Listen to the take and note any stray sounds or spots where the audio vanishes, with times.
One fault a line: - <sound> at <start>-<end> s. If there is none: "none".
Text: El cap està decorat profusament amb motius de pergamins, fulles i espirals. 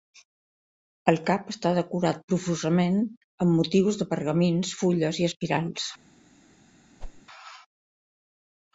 - whoosh at 7.0-7.2 s